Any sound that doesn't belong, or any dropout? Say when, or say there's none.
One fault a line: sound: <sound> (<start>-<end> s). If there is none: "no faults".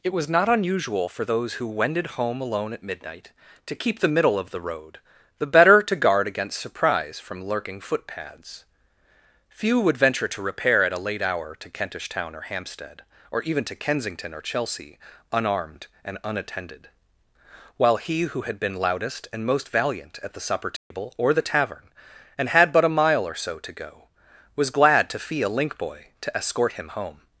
sound: dropout (20.8-20.9 s)